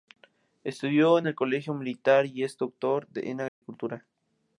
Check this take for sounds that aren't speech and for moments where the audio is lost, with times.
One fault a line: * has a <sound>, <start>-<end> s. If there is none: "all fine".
* has a dropout, 3.5-3.6 s